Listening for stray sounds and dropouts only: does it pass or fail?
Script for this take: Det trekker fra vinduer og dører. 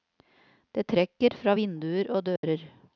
fail